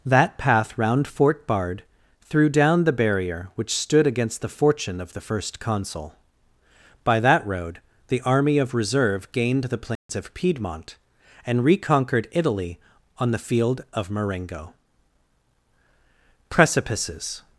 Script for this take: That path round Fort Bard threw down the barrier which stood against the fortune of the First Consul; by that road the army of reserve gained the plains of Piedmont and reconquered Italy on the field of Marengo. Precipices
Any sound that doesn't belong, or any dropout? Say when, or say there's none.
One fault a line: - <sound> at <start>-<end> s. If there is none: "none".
- dropout at 10.0-10.1 s